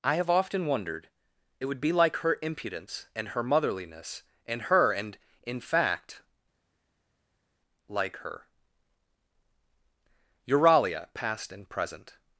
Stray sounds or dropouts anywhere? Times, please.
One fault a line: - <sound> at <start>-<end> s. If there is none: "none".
none